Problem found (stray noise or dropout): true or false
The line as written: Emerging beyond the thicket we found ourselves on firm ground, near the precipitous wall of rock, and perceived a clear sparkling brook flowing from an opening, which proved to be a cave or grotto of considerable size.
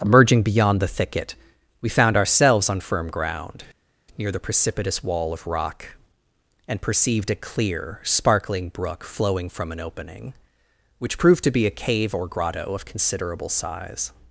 false